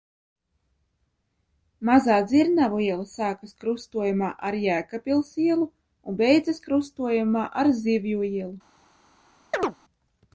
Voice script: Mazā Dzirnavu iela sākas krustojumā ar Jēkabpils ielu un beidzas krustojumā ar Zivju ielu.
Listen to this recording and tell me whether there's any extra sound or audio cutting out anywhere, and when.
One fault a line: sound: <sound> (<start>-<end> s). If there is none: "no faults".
sound: chirp (9.5-9.8 s)